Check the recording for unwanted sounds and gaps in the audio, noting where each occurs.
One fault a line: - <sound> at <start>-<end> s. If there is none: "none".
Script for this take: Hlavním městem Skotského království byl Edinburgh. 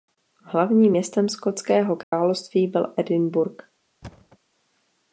- dropout at 2.0-2.1 s
- thud at 4.0-4.4 s